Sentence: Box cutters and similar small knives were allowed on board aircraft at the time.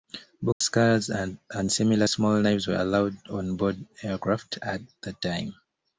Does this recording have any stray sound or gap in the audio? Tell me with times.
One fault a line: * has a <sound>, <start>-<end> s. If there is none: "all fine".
* has a dropout, 0.5-0.6 s